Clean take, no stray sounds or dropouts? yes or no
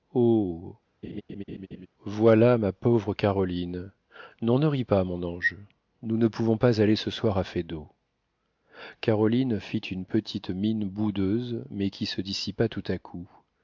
no